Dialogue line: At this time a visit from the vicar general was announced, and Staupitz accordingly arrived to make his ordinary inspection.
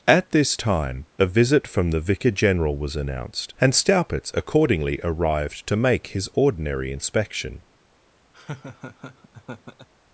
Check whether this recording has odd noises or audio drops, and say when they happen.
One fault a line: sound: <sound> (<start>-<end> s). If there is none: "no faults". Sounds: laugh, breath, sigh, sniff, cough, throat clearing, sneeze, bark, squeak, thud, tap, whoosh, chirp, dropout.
sound: laugh (8.3-9.9 s)